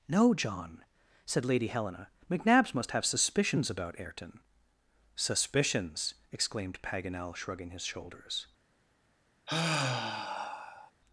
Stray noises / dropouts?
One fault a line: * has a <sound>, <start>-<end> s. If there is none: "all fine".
* has a sigh, 9.5-10.9 s